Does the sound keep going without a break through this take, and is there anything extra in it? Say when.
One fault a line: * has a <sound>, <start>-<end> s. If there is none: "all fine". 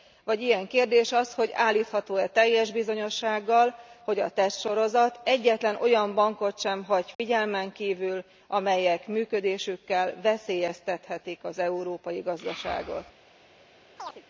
* has a dropout, 7.1-7.2 s
* has a chirp, 14.0-14.2 s